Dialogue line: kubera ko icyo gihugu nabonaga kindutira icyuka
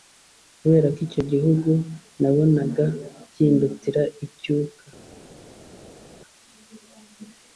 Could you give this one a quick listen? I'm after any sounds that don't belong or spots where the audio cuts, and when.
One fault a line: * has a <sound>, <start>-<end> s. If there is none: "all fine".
all fine